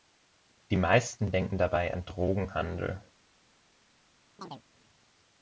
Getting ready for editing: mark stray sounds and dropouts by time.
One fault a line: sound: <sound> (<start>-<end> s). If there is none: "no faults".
sound: chirp (4.4-4.6 s)